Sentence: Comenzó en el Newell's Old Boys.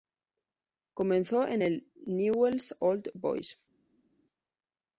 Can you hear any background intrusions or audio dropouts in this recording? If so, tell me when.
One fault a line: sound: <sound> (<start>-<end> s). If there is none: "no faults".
no faults